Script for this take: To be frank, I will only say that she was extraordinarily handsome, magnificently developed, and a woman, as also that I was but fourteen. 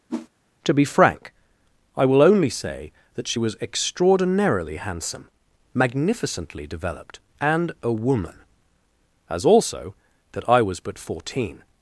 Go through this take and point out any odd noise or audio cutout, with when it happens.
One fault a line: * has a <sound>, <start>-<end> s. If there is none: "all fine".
* has a whoosh, 0.1-0.3 s